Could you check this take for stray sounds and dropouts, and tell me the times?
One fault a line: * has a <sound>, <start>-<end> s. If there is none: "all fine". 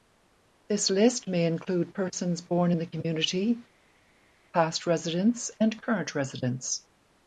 all fine